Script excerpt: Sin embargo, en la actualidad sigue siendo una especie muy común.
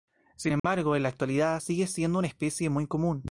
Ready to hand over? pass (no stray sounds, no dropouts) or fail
fail